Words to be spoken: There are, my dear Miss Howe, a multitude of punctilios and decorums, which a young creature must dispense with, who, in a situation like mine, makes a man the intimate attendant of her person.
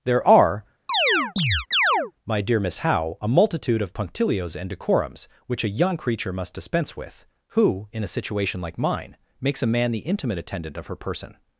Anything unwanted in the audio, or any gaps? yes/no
yes